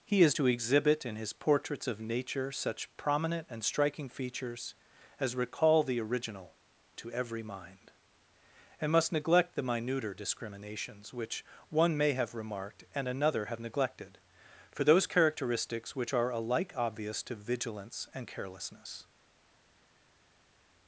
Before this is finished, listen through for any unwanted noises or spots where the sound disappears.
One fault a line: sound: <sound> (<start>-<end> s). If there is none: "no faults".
no faults